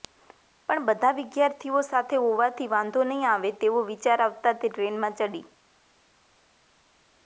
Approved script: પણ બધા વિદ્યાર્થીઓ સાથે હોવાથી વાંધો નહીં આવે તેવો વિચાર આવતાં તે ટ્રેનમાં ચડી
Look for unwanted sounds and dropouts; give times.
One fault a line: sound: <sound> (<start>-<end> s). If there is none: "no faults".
no faults